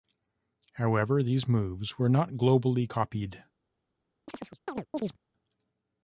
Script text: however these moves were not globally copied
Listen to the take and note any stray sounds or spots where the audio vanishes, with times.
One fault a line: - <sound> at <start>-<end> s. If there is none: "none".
- chirp at 4.3-5.2 s